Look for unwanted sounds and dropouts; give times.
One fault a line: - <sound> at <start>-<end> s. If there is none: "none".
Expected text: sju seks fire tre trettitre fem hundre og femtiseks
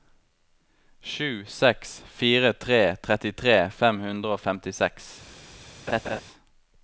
- laugh at 5.9-6.2 s